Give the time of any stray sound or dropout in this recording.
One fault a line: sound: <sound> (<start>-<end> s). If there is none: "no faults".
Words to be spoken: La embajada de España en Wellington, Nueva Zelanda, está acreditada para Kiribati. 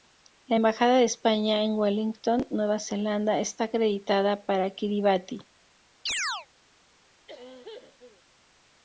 sound: chirp (6.1-6.5 s)
sound: cough (7.3-8.2 s)